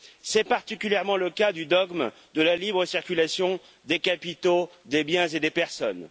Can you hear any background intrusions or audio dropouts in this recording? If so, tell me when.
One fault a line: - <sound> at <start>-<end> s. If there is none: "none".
none